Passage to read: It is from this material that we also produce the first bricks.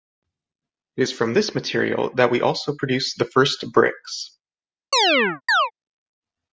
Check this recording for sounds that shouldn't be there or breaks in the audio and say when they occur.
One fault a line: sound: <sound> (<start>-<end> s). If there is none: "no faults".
sound: chirp (4.9-5.7 s)